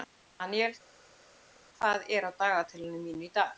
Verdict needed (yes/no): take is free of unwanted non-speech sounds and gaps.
yes